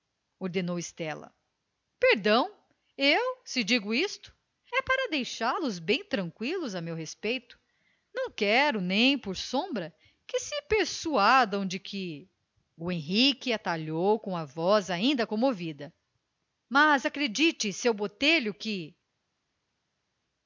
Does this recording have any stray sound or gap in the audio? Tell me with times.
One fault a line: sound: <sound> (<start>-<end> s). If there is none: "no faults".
no faults